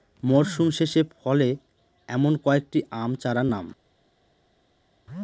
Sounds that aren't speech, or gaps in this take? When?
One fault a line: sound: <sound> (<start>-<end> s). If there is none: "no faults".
no faults